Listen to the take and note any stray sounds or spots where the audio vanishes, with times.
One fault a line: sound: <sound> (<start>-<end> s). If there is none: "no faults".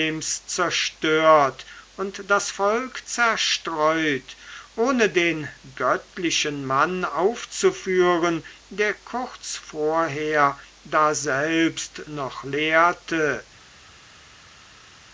no faults